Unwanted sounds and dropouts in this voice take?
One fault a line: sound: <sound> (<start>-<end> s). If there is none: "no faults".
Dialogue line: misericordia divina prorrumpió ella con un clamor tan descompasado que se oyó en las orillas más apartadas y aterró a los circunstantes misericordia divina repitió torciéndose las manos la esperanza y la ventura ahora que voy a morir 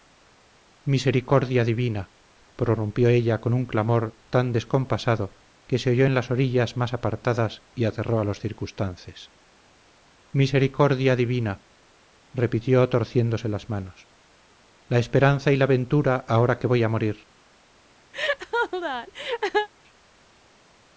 sound: laugh (18.1-19.7 s)